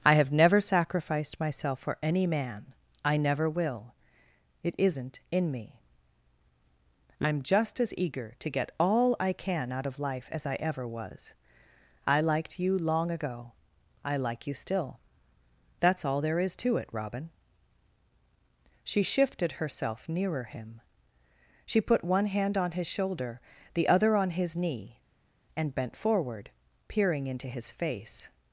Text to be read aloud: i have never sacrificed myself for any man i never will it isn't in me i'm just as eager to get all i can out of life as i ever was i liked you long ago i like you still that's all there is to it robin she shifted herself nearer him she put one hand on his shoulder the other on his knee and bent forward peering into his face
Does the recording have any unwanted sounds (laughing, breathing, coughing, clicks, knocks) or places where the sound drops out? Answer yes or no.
no